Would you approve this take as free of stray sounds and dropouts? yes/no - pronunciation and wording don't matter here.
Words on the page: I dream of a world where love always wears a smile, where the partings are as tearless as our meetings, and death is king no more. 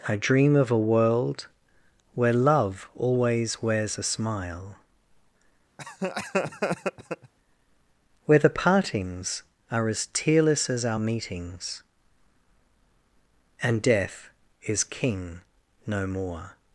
no